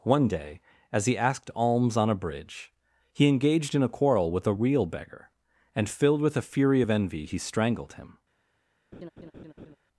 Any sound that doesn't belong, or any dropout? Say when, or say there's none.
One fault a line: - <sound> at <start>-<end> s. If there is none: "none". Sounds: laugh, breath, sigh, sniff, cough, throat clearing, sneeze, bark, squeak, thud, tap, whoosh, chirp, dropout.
- laugh at 8.9-9.8 s